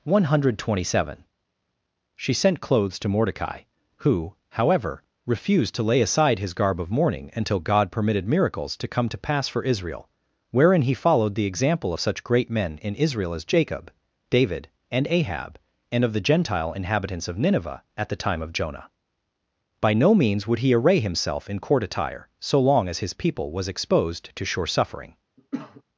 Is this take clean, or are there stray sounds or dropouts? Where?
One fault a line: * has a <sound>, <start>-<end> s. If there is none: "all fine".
* has a cough, 25.4-25.8 s